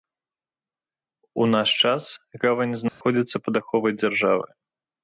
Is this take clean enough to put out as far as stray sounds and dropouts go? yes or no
no